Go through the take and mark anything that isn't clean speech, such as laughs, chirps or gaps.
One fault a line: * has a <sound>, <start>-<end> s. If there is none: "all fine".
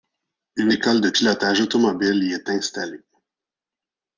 all fine